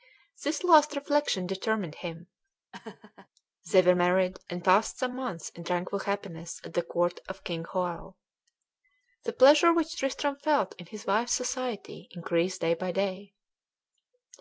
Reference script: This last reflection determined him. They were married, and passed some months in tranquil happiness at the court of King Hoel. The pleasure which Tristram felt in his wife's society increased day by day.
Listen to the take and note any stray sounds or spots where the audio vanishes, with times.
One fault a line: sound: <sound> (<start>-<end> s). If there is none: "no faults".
sound: laugh (2.7-3.3 s)